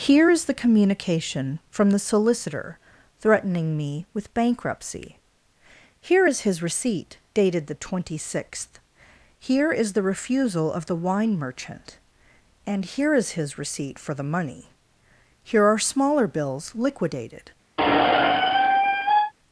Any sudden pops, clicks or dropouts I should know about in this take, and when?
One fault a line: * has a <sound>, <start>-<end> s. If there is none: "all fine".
* has a squeak, 17.8-19.3 s